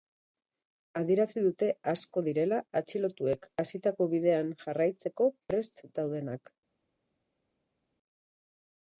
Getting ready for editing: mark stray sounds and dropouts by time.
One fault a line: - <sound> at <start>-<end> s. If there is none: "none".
none